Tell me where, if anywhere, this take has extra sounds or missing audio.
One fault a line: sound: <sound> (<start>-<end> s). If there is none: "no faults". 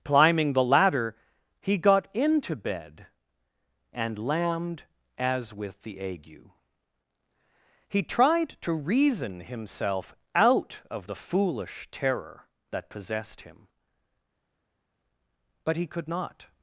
no faults